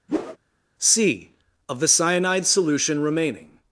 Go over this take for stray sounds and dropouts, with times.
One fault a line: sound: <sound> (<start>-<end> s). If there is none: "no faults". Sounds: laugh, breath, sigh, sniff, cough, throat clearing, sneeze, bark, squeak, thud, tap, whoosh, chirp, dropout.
sound: whoosh (0.1-0.4 s)